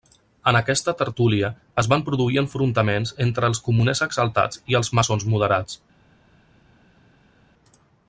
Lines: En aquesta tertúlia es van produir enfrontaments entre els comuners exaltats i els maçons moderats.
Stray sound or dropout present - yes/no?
no